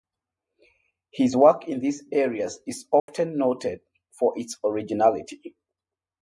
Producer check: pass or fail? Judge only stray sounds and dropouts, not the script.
fail